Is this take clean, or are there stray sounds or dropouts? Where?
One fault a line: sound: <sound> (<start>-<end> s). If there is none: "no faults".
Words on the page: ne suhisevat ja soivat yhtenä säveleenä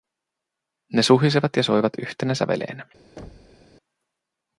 sound: thud (3.2-3.7 s)